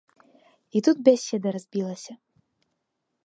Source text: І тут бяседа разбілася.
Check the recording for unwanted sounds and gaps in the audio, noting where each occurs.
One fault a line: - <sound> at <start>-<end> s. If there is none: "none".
none